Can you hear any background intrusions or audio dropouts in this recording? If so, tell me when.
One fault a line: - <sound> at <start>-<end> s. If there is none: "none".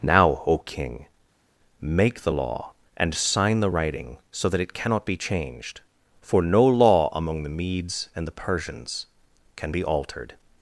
none